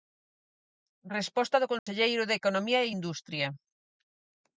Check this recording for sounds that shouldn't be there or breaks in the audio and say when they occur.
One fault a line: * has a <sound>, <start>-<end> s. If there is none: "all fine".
* has a dropout, 1.8-1.9 s